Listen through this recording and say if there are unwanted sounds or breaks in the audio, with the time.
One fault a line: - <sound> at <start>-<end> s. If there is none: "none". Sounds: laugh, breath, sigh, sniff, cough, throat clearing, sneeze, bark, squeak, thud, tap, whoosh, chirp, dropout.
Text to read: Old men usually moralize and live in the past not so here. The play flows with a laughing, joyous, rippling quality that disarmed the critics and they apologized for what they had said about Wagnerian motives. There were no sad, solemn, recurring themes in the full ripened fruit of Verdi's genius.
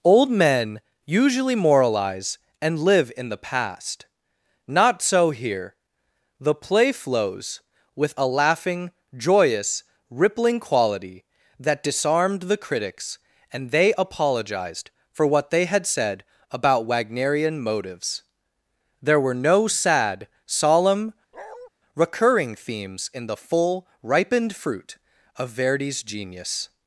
- bark at 21.3-21.7 s